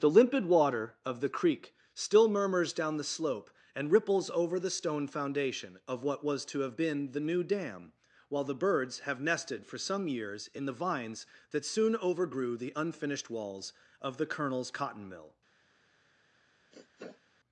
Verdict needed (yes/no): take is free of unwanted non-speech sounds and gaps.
no